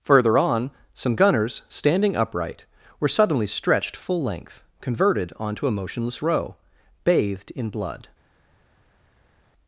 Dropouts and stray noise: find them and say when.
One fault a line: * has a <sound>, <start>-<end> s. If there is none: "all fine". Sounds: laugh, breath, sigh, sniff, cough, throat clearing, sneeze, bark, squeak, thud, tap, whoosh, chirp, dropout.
all fine